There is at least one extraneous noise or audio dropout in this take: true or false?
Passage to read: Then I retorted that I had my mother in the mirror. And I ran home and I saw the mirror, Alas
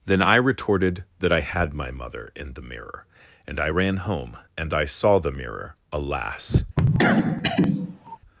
true